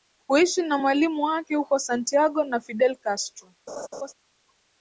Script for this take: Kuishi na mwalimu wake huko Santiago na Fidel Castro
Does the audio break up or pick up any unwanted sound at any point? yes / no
yes